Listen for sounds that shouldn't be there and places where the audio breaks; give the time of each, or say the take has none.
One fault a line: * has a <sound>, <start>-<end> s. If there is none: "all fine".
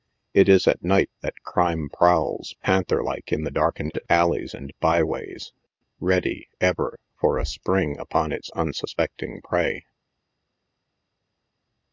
all fine